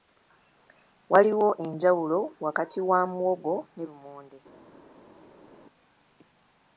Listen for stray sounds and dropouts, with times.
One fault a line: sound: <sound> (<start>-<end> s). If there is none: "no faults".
no faults